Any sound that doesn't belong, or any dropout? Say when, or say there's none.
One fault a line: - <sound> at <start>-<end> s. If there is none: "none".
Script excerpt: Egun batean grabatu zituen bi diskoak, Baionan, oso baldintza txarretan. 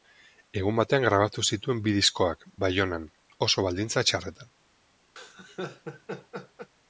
- laugh at 5.2-6.7 s